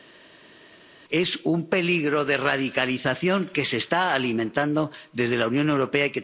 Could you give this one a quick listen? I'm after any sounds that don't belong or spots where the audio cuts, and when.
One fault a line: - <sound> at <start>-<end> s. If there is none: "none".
none